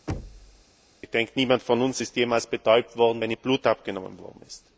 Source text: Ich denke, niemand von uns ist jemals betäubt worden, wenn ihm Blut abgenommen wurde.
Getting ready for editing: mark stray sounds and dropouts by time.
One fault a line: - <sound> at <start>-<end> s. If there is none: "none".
- thud at 0.1-0.6 s